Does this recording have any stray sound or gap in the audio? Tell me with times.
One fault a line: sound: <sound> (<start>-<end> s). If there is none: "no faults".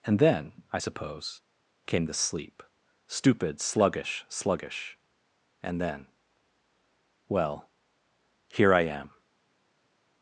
no faults